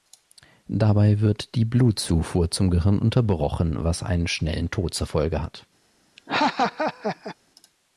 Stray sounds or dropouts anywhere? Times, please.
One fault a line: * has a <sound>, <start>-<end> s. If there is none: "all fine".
* has a laugh, 6.2-7.4 s